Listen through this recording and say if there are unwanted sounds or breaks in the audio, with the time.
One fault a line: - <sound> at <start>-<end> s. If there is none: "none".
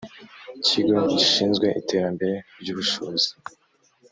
none